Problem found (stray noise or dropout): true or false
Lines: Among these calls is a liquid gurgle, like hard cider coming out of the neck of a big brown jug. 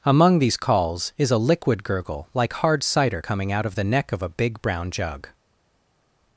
false